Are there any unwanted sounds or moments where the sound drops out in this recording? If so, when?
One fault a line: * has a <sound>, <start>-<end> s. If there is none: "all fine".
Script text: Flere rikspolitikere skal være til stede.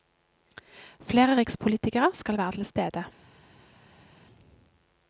all fine